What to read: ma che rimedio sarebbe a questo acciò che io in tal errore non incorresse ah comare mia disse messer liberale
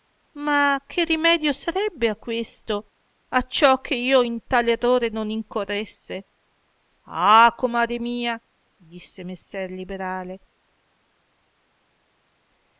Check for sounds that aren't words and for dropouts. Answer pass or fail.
pass